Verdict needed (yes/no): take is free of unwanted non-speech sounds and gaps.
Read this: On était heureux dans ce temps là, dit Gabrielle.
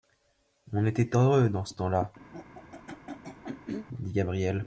no